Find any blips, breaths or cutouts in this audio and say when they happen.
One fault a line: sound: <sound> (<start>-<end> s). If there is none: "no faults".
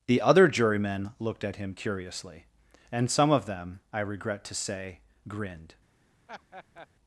sound: laugh (6.3-6.9 s)